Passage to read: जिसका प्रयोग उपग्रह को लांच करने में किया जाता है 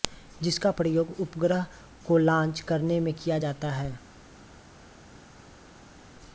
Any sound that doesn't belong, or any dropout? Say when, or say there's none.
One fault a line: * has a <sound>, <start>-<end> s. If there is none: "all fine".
all fine